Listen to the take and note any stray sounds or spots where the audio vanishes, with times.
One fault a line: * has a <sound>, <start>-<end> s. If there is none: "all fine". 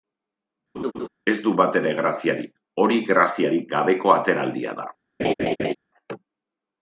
* has a laugh, 0.7-1.1 s
* has a laugh, 5.2-5.7 s